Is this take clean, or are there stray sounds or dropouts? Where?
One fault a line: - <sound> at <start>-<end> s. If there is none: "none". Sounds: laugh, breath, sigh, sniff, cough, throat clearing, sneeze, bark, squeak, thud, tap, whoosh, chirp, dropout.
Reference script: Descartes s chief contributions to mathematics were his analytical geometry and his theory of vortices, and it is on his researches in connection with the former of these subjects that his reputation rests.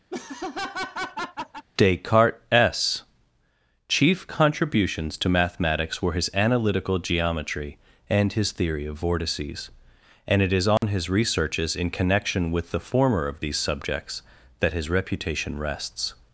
- laugh at 0.1-1.6 s
- dropout at 10.8-10.8 s